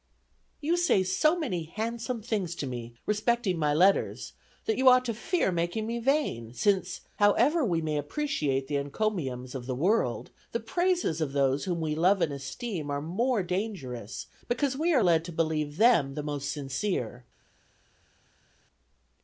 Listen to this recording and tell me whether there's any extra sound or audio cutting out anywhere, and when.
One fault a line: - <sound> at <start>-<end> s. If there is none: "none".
none